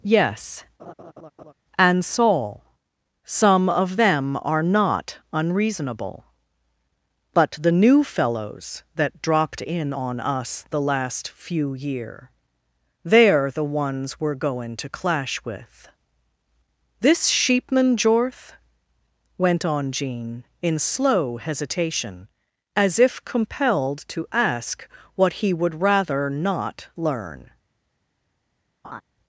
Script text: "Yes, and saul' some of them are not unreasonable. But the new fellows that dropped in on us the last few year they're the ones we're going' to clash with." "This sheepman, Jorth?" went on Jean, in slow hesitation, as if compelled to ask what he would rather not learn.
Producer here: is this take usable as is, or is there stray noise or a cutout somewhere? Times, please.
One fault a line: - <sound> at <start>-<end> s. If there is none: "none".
- laugh at 0.8-1.5 s
- laugh at 28.8-29.0 s